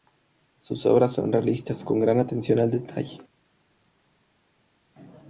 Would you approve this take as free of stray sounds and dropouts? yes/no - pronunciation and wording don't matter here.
yes